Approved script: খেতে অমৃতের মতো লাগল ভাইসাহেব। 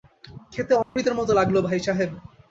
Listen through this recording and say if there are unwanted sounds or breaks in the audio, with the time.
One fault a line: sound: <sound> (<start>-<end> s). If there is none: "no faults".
sound: dropout (0.8-1.0 s)